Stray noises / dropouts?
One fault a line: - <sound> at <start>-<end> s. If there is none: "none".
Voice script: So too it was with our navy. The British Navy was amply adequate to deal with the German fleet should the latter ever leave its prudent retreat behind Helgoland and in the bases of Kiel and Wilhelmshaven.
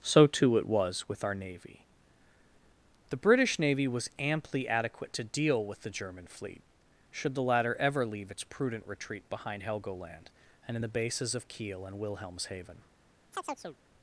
- chirp at 13.3-13.8 s